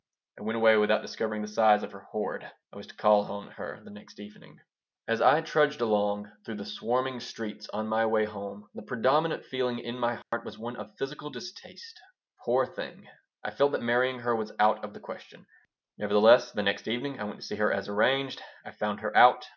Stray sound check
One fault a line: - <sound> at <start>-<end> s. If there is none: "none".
- dropout at 10.2-10.3 s